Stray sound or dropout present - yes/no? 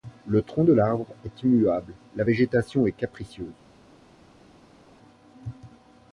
no